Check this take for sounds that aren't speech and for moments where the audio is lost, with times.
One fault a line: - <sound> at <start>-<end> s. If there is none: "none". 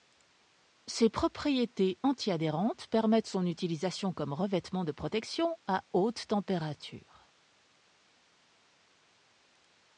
none